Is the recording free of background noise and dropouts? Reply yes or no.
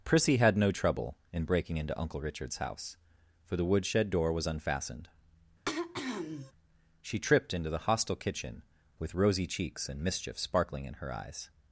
no